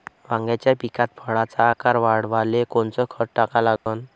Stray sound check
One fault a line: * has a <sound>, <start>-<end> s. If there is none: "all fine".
* has a dropout, 3.8-3.9 s